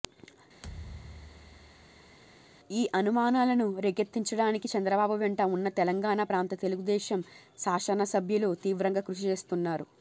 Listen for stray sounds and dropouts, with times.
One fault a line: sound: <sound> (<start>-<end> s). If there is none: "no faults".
sound: thud (0.6-2.2 s)